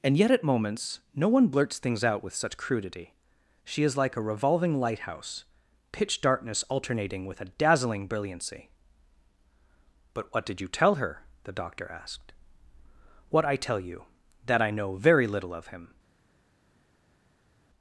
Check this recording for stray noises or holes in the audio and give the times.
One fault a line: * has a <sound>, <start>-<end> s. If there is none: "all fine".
all fine